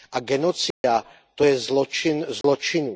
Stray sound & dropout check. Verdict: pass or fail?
fail